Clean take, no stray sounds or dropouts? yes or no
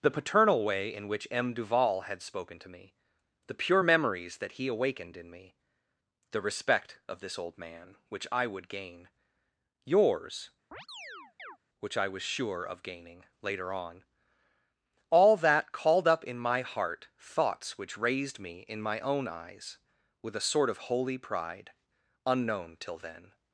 no